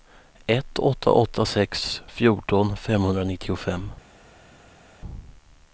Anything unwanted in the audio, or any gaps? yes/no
no